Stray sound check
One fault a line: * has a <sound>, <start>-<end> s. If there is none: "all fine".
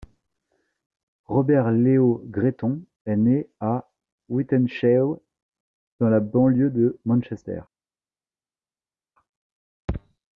all fine